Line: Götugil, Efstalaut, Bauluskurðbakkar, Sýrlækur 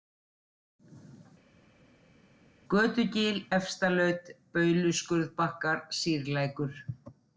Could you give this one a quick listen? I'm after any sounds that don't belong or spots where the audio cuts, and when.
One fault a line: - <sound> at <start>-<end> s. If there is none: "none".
none